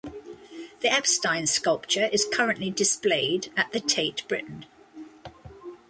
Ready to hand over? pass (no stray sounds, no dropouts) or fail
pass